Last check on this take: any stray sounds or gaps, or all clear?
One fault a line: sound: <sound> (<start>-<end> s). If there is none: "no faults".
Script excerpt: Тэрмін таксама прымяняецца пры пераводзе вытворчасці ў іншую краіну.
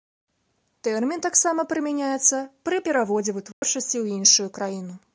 sound: dropout (3.5-3.6 s)